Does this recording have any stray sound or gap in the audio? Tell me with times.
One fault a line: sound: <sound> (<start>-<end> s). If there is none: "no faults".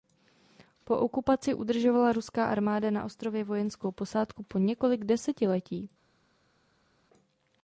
no faults